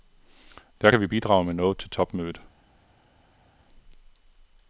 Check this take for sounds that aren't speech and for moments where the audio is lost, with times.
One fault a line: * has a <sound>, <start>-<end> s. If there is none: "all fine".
all fine